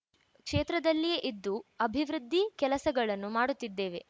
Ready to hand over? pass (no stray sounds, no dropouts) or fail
pass